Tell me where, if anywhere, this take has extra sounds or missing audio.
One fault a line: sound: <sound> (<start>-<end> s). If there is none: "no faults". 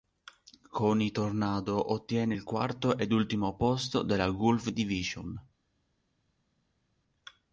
no faults